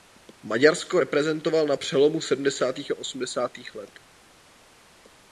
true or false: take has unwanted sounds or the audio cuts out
false